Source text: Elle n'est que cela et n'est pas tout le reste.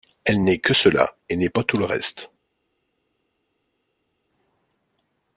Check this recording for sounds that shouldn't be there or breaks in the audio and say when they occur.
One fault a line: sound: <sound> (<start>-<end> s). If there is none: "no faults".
no faults